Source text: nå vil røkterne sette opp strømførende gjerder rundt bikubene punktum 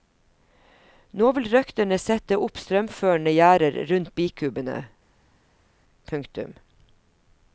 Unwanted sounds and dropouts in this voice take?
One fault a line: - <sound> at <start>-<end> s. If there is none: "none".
none